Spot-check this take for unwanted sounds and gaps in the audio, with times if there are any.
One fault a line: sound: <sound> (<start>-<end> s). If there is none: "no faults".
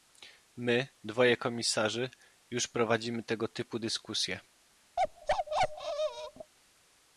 sound: bark (5.0-6.5 s)